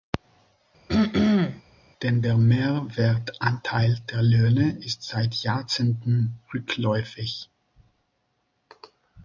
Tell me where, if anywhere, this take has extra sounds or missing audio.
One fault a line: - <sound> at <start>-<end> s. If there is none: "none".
- throat clearing at 0.9-1.6 s